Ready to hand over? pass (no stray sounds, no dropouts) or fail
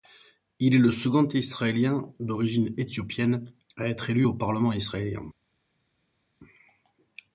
pass